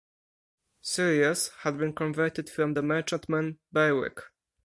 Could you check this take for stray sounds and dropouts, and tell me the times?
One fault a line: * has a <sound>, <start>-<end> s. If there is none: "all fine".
all fine